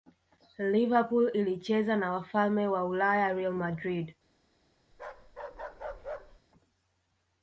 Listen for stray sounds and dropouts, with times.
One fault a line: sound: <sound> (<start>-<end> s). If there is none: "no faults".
sound: bark (4.9-6.4 s)